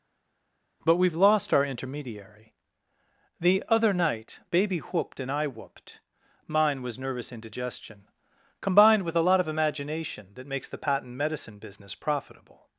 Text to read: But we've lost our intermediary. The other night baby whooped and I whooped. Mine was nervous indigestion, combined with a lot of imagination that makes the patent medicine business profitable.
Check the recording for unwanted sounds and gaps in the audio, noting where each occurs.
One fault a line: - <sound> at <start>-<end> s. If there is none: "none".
none